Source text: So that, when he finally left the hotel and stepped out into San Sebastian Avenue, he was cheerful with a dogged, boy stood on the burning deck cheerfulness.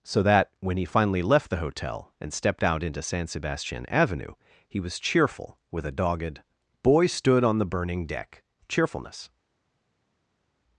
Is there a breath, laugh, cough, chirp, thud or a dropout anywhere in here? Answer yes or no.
no